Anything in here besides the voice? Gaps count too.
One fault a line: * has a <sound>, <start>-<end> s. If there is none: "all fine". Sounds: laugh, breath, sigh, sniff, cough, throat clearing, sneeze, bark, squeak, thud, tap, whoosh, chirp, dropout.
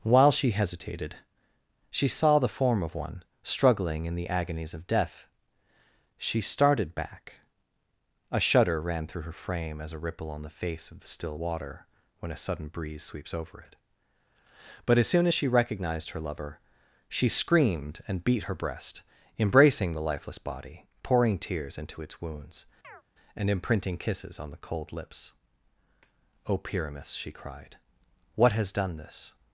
* has a chirp, 22.8-23.0 s